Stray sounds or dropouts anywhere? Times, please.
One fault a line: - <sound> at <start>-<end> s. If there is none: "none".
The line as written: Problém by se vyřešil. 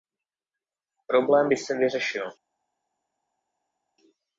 none